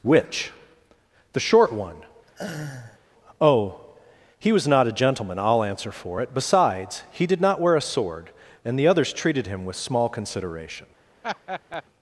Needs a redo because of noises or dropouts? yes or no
yes